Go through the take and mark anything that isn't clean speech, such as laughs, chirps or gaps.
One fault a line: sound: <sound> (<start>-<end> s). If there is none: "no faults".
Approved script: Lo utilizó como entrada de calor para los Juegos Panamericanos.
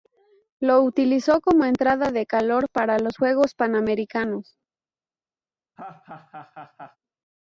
sound: laugh (5.8-7.0 s)